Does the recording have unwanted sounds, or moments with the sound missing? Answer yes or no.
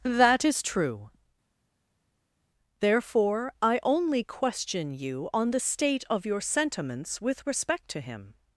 no